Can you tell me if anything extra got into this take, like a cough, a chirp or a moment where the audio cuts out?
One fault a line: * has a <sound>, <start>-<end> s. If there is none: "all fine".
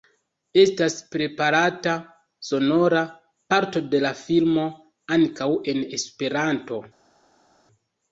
all fine